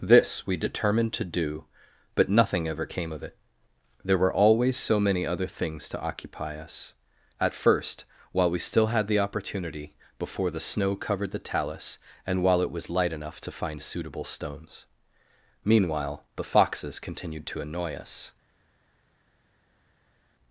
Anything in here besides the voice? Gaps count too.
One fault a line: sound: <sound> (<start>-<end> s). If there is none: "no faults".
no faults